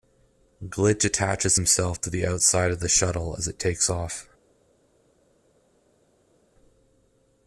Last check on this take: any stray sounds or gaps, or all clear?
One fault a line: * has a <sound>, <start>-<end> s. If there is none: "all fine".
all fine